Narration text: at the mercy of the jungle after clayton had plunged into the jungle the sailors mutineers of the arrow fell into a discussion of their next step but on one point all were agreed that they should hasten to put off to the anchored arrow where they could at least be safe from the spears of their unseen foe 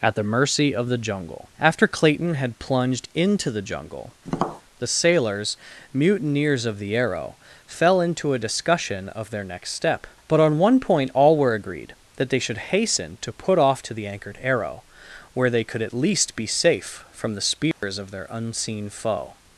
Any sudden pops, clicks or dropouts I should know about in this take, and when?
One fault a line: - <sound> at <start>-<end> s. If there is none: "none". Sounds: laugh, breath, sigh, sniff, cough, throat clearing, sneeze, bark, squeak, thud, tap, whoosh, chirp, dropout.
- tap at 4.2-4.6 s
- dropout at 17.7-17.8 s